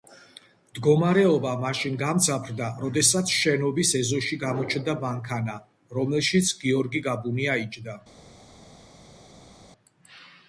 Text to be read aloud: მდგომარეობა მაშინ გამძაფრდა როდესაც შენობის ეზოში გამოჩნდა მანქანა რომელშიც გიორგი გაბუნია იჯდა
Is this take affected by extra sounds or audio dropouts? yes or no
no